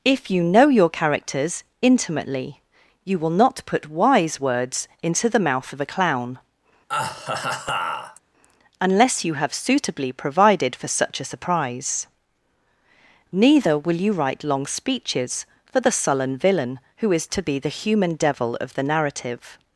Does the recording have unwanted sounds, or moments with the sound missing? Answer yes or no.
yes